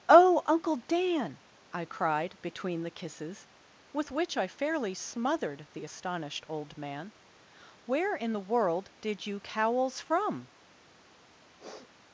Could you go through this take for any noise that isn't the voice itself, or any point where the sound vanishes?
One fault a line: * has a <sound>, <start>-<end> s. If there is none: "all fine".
* has a sniff, 11.6-11.9 s